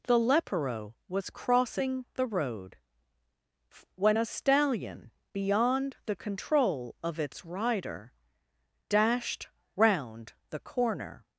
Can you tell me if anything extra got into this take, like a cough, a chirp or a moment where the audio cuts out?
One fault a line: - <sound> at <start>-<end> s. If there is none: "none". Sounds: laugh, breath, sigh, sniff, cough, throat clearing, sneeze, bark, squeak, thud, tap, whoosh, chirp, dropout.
none